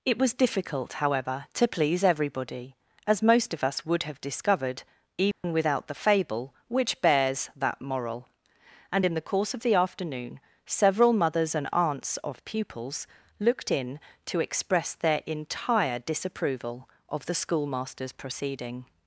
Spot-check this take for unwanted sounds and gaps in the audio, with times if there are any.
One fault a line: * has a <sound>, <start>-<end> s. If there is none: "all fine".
* has a dropout, 5.3-5.4 s